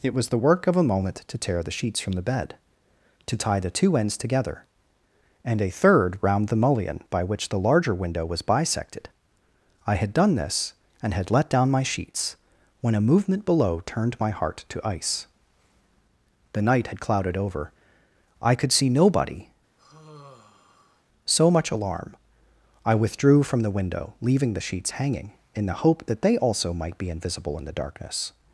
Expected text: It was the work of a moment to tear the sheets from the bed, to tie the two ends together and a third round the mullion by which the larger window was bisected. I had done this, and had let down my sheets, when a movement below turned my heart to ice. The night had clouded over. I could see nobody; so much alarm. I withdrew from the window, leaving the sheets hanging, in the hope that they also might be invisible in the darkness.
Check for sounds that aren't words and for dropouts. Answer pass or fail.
fail